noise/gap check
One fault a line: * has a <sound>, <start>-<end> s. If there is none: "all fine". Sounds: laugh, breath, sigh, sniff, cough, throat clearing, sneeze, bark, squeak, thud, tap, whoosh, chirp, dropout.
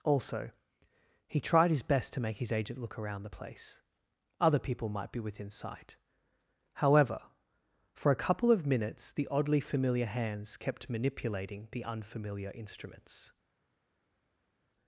all fine